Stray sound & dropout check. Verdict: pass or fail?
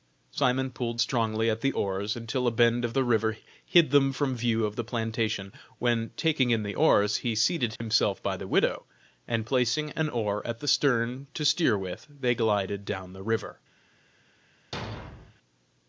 fail